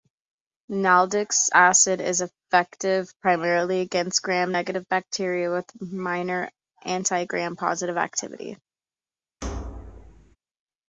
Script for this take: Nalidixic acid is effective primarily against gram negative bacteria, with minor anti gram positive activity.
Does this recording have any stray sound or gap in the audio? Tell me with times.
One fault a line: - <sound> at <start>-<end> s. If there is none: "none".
- thud at 9.4-10.4 s